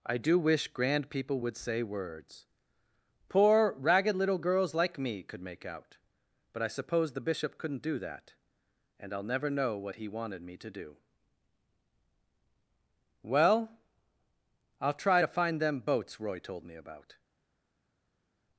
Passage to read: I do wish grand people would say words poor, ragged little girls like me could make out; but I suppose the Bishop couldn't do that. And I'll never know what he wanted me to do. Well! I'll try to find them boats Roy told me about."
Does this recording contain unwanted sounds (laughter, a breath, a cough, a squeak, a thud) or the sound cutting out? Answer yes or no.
no